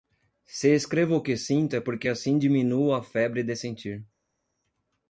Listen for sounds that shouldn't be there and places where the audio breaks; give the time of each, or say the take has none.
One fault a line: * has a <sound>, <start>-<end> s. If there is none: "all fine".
all fine